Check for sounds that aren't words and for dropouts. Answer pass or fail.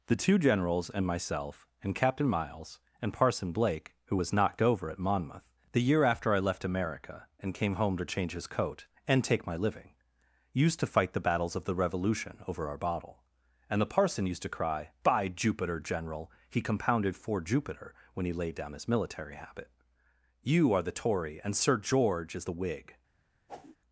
fail